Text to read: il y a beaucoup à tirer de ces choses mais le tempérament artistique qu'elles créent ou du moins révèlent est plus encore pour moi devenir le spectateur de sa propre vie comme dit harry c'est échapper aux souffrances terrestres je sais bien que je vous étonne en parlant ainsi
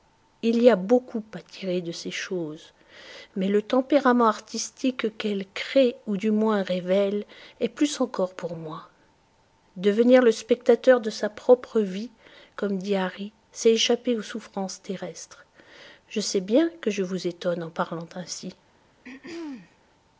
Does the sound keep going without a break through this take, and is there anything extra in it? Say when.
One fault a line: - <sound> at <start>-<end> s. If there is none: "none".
- throat clearing at 19.0-19.8 s